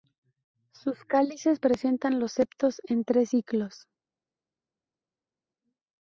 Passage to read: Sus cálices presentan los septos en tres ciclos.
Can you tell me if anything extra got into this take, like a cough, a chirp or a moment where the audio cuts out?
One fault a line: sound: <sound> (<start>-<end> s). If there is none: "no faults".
no faults